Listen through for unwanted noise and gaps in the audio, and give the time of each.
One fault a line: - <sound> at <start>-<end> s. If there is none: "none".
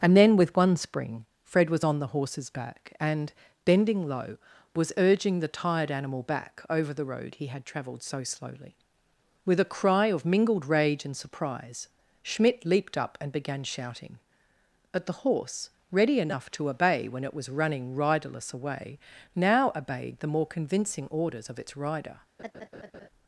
- laugh at 22.4-23.1 s